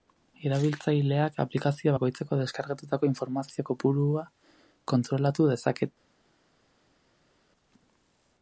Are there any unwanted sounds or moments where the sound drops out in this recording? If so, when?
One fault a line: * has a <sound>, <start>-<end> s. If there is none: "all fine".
all fine